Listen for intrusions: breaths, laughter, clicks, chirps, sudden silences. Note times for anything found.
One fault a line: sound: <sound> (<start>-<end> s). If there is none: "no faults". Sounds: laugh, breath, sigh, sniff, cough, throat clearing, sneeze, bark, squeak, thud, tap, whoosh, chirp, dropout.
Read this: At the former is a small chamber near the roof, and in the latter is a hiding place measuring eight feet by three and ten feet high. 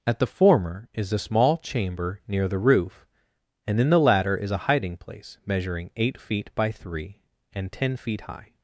no faults